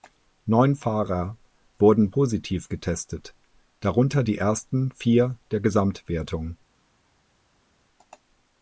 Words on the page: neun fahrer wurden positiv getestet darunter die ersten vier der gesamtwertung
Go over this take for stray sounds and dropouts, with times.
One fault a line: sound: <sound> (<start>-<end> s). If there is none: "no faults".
no faults